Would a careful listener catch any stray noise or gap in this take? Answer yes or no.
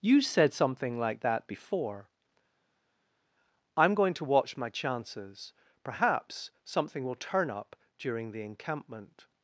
no